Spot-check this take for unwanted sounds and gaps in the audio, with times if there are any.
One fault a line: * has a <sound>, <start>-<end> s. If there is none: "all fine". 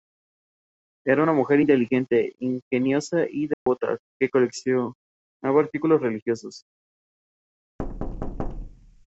* has a dropout, 3.5-3.7 s
* has a thud, 7.8-9.1 s